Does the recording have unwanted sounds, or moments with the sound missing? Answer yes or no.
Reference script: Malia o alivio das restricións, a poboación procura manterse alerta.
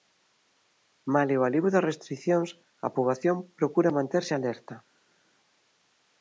no